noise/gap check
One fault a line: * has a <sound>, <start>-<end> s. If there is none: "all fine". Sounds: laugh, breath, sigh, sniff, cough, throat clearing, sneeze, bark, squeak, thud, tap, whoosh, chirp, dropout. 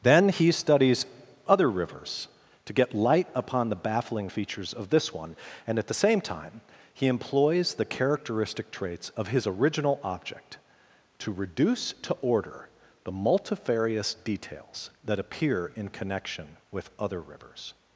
all fine